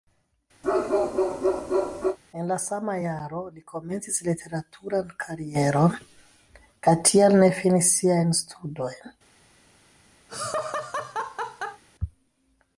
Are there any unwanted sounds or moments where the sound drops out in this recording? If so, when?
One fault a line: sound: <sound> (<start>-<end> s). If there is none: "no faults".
sound: bark (0.6-2.2 s)
sound: laugh (10.3-11.8 s)